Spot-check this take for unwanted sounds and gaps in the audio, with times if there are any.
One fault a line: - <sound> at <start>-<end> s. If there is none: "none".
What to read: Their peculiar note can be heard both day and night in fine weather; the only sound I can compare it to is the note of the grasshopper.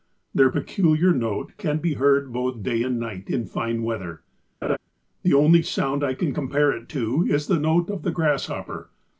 - laugh at 4.6-4.8 s